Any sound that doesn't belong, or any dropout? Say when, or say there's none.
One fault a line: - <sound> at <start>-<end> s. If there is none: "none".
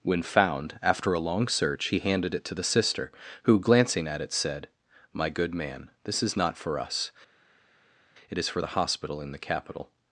none